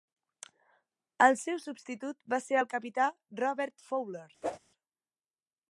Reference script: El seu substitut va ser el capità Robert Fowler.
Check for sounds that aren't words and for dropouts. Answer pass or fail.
fail